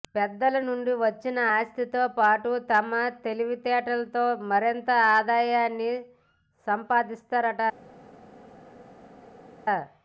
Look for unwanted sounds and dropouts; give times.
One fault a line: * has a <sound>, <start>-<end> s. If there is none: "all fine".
all fine